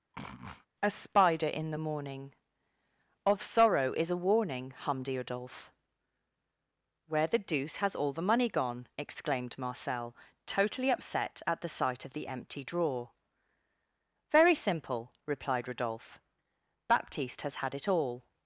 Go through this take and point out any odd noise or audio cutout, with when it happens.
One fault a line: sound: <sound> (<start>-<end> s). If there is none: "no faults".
sound: sniff (0.1-0.7 s)